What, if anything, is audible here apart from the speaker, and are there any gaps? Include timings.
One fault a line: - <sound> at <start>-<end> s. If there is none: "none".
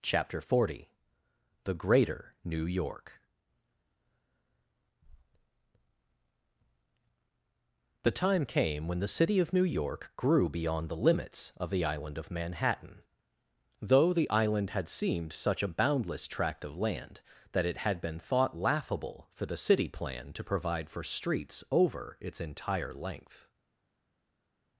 none